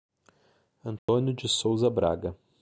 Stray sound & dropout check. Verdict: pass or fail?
fail